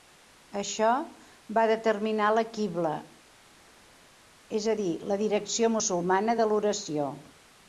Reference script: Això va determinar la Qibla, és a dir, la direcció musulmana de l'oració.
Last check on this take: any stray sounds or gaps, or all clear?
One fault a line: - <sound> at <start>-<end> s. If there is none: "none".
none